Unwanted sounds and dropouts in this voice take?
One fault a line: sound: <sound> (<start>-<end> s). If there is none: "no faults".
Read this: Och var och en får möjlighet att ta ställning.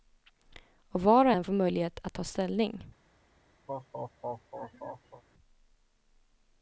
sound: laugh (3.7-5.2 s)